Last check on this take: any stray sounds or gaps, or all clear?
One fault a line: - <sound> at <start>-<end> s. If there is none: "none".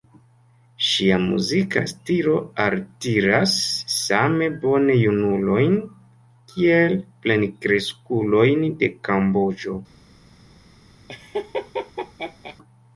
- laugh at 11.1-12.6 s